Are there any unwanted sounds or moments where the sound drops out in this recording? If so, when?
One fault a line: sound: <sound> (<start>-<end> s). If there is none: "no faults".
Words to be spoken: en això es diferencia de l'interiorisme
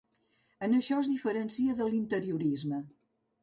no faults